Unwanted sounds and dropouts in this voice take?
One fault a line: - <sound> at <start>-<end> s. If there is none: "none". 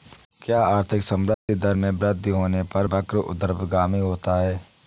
- dropout at 1.3-1.5 s